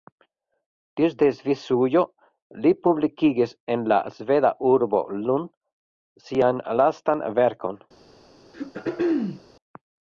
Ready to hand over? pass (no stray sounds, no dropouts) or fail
fail